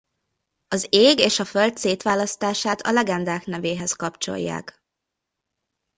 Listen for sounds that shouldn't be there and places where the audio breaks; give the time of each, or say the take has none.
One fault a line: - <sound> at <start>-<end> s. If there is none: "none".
none